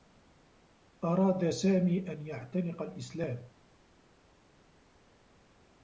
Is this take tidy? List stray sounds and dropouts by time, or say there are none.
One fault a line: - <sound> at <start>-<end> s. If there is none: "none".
none